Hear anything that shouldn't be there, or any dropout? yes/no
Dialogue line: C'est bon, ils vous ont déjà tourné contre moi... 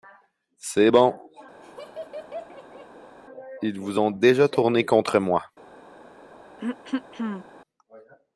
yes